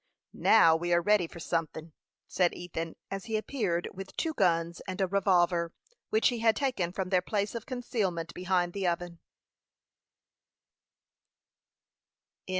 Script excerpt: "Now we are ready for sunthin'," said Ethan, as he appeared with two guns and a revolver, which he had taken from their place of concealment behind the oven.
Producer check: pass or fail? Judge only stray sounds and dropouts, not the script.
pass